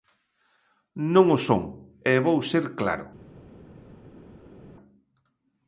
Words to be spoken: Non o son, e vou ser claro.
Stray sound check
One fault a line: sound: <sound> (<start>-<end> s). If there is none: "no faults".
no faults